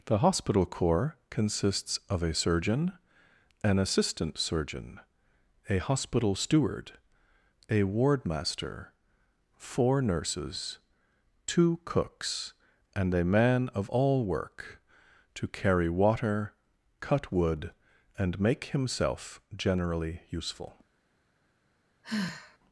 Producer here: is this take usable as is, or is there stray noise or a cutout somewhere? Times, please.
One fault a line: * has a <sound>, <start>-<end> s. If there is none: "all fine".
* has a sigh, 22.0-22.6 s